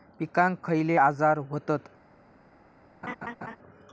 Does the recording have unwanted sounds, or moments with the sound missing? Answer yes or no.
yes